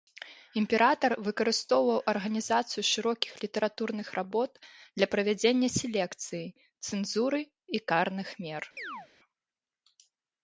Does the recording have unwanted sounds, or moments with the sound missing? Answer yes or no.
yes